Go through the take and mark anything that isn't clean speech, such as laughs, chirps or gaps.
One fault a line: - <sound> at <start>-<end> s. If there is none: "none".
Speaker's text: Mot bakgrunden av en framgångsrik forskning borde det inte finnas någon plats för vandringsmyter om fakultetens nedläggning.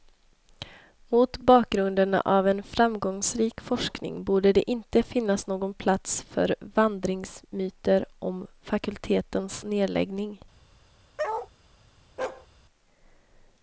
- bark at 11.2-11.5 s
- bark at 12.2-12.5 s